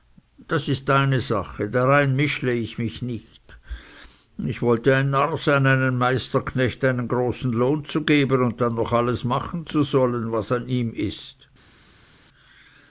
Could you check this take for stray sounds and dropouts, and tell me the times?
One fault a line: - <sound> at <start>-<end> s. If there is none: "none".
none